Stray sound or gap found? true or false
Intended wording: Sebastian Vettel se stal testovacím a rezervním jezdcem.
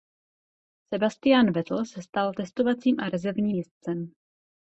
false